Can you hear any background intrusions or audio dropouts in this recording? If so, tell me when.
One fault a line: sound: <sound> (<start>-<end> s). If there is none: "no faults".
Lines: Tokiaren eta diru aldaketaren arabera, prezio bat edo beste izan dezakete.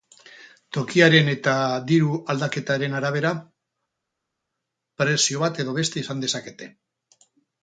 no faults